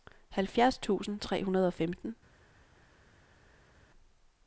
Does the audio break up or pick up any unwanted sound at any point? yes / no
no